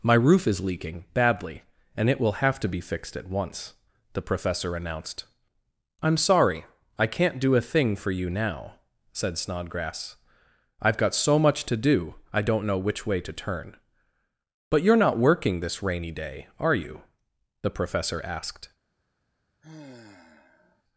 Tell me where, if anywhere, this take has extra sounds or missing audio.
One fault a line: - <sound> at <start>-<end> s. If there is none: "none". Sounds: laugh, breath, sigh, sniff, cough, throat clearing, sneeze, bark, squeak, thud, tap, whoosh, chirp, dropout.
- sigh at 19.6-20.8 s